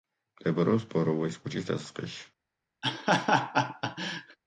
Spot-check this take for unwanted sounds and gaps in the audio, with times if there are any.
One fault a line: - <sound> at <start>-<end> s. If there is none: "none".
- laugh at 2.8-4.4 s